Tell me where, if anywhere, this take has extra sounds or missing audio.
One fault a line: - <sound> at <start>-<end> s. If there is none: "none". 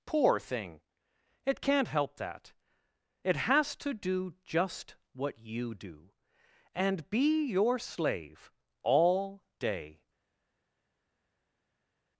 none